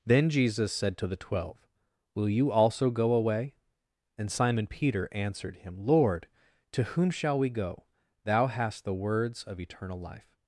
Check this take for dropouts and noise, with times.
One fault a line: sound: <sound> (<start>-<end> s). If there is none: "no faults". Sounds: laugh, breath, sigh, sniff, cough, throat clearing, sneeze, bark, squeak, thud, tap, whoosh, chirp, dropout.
no faults